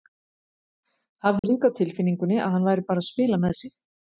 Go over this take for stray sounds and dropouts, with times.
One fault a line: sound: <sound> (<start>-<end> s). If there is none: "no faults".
sound: dropout (1.4-1.4 s)